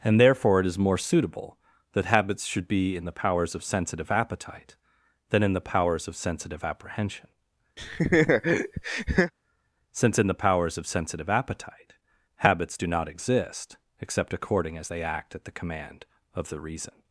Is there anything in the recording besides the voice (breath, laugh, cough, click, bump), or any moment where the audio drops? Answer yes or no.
yes